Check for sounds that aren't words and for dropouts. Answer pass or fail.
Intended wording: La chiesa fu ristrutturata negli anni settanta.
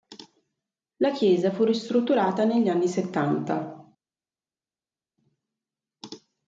pass